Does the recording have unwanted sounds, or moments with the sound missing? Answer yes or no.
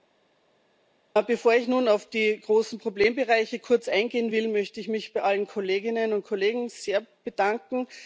no